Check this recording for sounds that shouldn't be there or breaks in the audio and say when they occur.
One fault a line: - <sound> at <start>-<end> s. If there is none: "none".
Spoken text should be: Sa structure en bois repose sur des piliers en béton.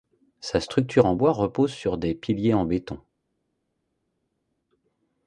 none